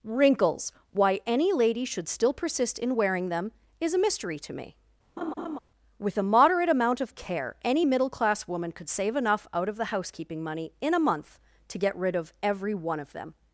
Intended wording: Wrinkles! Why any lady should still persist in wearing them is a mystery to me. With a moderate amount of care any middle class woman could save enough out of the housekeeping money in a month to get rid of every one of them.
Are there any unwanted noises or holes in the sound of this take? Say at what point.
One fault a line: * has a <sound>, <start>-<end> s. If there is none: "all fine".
* has a laugh, 5.2-5.6 s